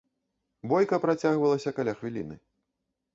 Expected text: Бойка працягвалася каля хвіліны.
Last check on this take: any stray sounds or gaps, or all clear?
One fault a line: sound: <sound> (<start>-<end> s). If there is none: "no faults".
no faults